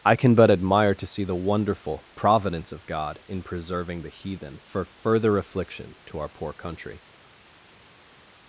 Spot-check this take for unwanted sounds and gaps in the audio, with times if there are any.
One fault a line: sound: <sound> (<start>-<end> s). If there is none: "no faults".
no faults